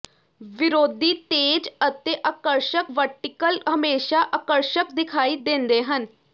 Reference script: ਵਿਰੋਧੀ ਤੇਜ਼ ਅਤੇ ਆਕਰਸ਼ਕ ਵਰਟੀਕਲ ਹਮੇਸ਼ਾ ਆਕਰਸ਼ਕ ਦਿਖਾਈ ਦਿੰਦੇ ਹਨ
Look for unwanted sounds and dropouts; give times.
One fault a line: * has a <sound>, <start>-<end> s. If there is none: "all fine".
all fine